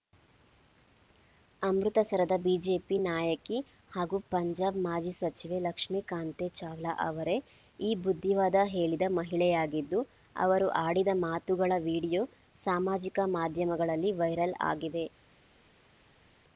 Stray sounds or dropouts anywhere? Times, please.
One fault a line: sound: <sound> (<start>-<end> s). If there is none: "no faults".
no faults